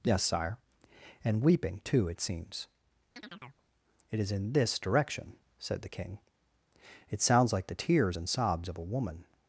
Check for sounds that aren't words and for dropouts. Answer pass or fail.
fail